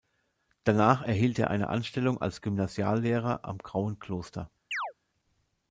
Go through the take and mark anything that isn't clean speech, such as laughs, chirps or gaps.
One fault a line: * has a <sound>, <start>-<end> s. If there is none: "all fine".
* has a chirp, 4.7-4.9 s